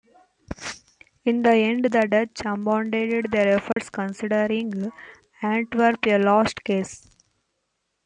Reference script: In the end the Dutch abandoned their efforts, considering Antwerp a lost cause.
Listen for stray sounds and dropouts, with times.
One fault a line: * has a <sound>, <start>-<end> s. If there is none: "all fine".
* has a dropout, 3.7-3.8 s